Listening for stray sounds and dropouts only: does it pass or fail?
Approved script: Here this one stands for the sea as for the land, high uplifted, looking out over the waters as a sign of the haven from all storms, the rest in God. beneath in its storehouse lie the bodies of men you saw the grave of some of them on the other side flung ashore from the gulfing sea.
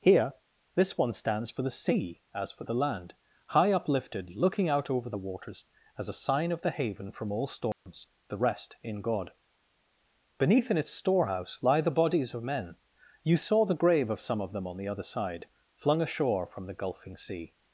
fail